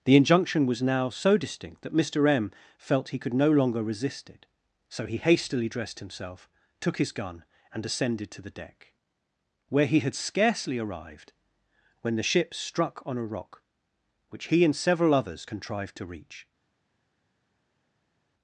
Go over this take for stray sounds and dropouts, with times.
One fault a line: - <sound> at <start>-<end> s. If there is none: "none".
none